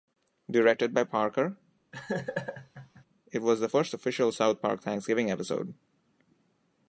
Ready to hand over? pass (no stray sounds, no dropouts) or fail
fail